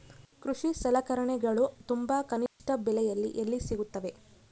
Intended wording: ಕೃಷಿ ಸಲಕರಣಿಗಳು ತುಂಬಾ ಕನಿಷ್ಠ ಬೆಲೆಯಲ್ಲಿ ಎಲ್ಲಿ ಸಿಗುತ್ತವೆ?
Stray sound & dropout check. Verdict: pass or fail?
fail